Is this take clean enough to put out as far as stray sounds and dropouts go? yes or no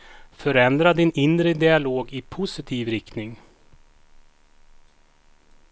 yes